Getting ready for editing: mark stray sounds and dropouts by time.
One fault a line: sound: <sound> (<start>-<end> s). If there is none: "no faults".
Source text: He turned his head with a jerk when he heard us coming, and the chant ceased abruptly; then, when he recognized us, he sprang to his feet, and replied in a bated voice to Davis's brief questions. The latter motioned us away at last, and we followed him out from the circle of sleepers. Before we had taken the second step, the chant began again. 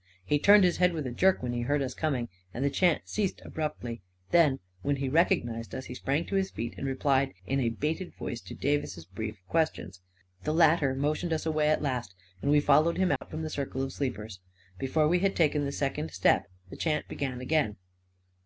sound: dropout (13.2-13.2 s)